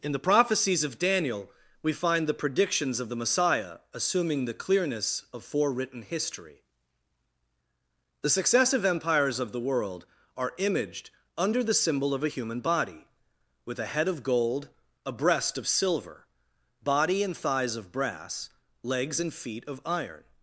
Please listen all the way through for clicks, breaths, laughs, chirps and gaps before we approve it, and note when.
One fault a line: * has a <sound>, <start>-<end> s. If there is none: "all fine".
all fine